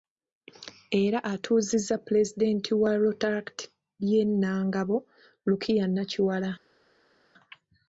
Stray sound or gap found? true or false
false